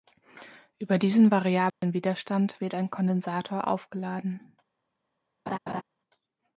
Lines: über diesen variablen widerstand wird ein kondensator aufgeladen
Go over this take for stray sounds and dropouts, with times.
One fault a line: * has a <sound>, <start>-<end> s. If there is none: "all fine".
* has a dropout, 1.7-1.8 s
* has a laugh, 5.5-5.8 s